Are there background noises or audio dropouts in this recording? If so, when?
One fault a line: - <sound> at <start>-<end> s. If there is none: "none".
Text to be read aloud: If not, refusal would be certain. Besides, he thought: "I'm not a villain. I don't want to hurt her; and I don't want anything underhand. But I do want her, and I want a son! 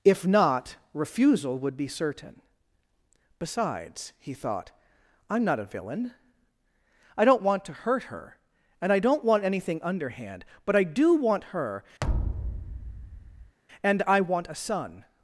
- thud at 12.0-13.6 s